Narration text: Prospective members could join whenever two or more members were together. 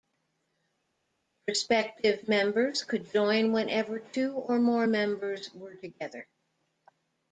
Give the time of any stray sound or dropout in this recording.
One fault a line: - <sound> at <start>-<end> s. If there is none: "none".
none